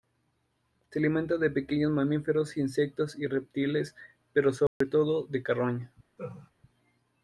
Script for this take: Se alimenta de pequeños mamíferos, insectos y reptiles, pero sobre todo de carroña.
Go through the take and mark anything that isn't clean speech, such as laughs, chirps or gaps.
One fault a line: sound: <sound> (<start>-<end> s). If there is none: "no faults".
sound: dropout (4.7-4.8 s)
sound: laugh (6.2-6.5 s)